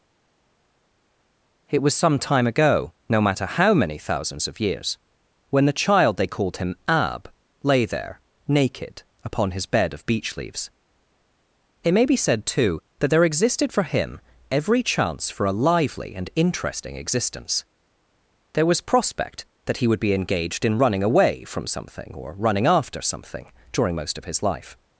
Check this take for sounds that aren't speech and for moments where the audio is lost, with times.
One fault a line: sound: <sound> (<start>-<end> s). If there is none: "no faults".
no faults